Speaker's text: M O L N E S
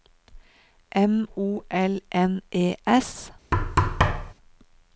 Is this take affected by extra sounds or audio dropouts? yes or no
yes